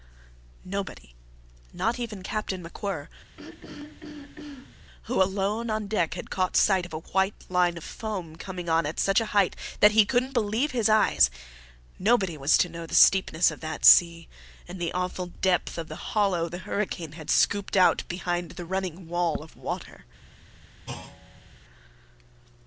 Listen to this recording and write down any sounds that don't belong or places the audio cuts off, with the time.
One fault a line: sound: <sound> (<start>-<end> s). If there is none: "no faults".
sound: throat clearing (3.4-4.8 s)
sound: thud (20.9-21.5 s)